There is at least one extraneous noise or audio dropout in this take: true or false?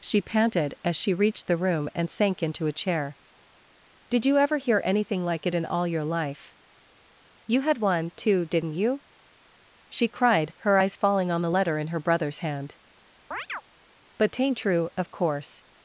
true